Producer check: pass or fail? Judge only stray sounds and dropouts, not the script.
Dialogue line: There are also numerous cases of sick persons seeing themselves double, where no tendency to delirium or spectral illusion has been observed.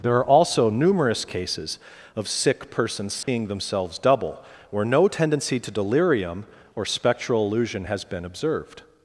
fail